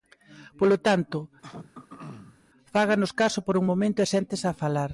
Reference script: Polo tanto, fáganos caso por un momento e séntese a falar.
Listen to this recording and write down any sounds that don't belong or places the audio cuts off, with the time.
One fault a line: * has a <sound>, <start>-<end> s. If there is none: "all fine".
* has a throat clearing, 1.4-2.4 s